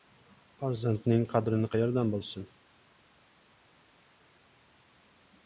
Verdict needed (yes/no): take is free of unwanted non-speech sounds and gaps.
yes